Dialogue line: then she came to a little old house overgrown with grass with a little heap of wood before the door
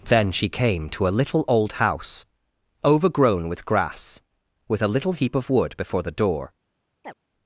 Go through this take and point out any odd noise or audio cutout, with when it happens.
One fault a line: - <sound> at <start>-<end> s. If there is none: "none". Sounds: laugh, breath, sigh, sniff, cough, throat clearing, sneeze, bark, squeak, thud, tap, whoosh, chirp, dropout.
- chirp at 7.0-7.1 s